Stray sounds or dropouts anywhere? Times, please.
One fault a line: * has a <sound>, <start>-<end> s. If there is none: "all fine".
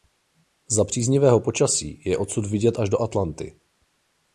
all fine